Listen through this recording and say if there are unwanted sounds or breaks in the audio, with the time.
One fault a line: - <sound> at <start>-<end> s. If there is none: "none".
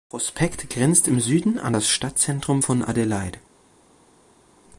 none